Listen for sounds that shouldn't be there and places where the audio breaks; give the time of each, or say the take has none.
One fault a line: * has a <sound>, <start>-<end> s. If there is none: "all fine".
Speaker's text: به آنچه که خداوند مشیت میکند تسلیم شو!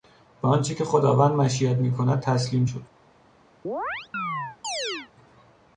* has a chirp, 3.6-5.1 s